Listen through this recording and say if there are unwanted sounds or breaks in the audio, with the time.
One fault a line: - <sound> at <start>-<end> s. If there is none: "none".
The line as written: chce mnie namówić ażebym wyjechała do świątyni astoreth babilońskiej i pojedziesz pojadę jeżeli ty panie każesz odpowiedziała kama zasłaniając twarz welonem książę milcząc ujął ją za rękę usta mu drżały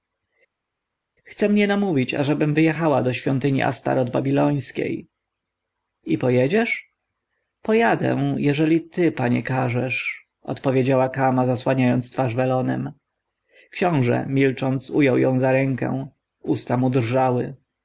none